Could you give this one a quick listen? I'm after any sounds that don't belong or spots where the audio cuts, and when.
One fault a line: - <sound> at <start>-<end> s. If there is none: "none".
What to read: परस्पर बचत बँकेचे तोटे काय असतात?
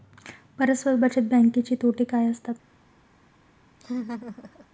- laugh at 3.8-4.7 s